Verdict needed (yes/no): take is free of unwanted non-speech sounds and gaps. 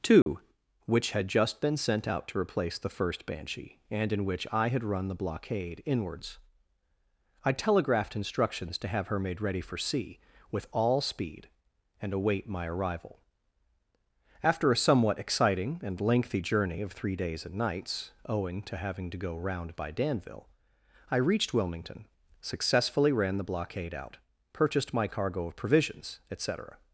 no